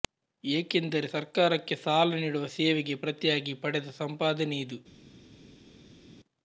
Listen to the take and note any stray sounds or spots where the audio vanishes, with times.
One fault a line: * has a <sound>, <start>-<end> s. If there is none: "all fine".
all fine